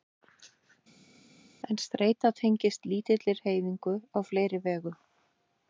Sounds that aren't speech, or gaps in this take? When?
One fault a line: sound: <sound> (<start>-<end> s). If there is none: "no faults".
no faults